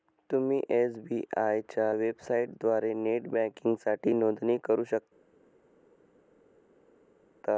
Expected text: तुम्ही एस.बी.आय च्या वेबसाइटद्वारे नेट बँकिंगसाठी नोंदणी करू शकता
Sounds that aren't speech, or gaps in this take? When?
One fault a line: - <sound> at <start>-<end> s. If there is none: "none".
none